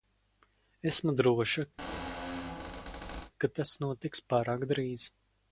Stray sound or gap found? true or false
true